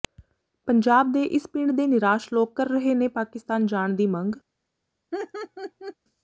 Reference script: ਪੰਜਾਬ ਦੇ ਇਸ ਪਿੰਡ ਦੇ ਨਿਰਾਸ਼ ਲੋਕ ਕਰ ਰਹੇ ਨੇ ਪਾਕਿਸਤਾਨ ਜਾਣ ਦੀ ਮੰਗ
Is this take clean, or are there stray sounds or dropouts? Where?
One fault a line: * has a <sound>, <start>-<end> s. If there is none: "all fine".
* has a laugh, 5.1-6.0 s